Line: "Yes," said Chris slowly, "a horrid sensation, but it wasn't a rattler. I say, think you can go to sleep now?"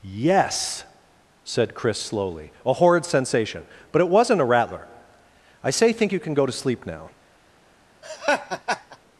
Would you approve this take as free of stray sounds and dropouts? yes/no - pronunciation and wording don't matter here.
no